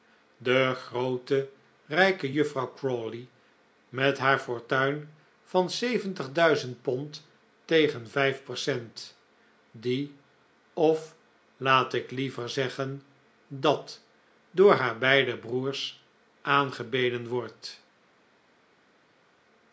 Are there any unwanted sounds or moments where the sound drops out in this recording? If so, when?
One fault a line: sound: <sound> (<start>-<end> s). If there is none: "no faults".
no faults